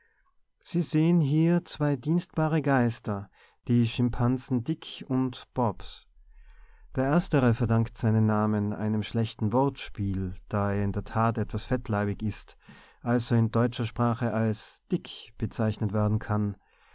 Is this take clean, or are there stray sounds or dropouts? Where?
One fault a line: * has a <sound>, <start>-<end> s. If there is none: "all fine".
all fine